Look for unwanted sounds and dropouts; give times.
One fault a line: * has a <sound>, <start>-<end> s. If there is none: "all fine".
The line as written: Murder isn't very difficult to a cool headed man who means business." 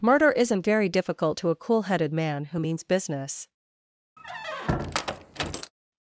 * has a squeak, 4.2-5.7 s